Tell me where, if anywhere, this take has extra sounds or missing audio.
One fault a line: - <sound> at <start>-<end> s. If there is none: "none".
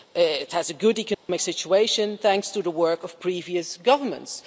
- dropout at 1.1-1.3 s